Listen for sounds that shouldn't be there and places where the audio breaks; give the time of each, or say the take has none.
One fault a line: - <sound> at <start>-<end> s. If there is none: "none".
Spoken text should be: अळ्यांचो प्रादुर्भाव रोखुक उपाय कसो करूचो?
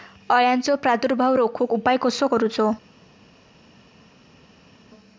none